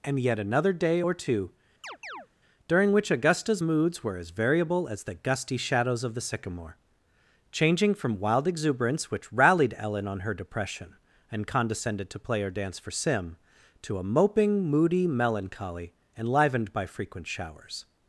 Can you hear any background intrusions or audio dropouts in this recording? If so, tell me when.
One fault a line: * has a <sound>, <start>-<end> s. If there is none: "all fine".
* has a chirp, 1.8-2.3 s